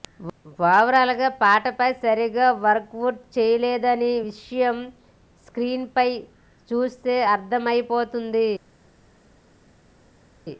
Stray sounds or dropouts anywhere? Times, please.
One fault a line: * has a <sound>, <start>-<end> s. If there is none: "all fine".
all fine